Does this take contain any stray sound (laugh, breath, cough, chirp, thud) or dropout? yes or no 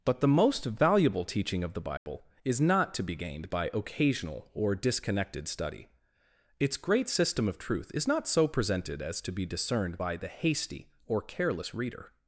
yes